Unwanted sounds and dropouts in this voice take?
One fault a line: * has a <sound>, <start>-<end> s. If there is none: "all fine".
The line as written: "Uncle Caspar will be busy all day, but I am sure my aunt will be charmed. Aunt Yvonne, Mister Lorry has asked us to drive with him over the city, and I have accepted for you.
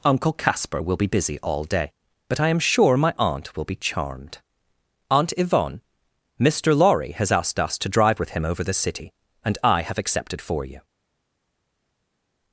all fine